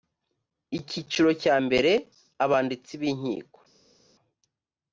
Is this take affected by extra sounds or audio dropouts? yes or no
no